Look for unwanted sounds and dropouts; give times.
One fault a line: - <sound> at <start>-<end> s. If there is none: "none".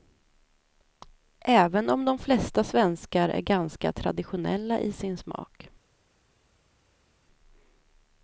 none